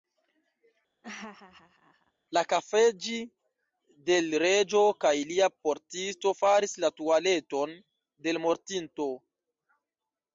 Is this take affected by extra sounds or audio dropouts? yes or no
yes